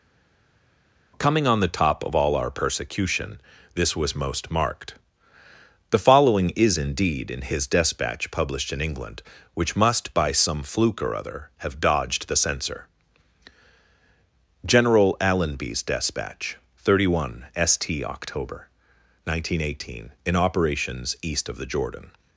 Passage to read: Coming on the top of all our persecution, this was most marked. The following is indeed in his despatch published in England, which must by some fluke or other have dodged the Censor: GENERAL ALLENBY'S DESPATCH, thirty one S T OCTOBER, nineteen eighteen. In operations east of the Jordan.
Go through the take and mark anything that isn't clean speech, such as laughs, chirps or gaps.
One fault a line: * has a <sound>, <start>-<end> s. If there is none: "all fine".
all fine